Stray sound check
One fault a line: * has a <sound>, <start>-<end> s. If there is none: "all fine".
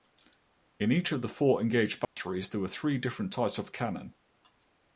* has a dropout, 2.0-2.2 s